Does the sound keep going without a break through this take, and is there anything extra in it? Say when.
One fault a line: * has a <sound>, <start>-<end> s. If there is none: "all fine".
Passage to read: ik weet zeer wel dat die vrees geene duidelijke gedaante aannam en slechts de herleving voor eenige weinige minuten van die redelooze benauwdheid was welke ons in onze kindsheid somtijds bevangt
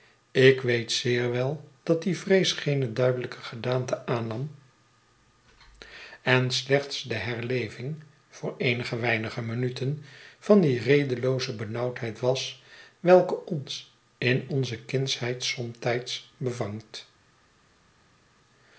all fine